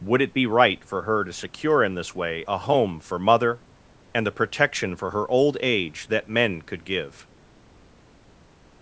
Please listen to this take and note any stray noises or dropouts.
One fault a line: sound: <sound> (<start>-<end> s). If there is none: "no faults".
no faults